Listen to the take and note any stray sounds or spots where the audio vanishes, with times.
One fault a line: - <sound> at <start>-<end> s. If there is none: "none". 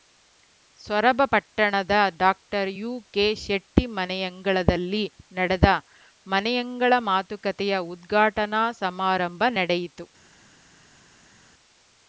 none